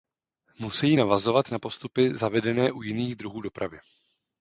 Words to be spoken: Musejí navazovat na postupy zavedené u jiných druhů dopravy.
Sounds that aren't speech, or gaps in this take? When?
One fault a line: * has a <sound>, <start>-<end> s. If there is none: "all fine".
all fine